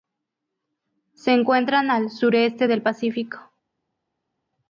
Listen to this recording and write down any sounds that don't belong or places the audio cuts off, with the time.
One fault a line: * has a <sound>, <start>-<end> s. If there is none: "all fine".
all fine